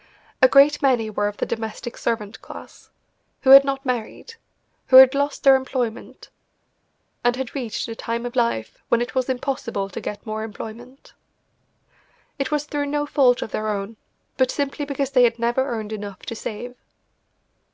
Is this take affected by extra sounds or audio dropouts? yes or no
no